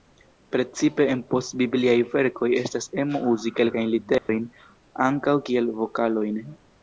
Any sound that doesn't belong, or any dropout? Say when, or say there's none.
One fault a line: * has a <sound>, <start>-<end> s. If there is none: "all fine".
* has a dropout, 4.2-4.3 s